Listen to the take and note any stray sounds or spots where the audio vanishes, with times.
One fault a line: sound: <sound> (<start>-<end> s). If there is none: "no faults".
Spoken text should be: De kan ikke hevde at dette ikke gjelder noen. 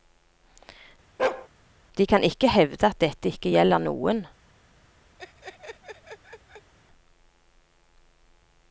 sound: bark (1.2-1.5 s)
sound: laugh (5.2-6.7 s)